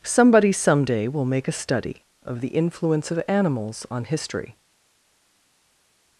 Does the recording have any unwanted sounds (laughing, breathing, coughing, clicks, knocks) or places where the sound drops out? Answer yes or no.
no